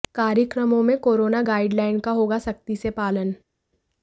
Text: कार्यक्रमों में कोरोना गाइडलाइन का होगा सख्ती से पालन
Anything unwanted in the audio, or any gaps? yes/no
no